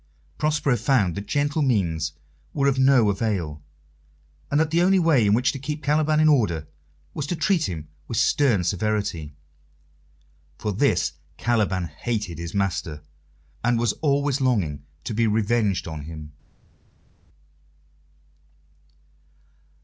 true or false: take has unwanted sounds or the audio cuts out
false